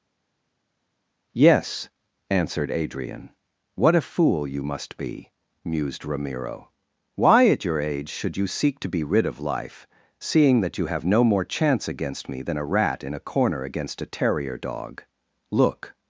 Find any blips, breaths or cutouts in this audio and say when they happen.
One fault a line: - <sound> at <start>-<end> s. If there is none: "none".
none